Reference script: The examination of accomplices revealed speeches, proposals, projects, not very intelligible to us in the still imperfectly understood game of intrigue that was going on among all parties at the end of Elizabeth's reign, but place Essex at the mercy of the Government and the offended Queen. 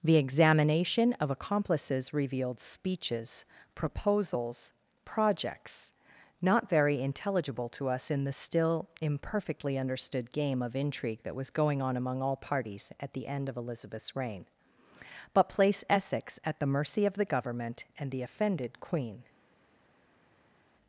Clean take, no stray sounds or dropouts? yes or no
yes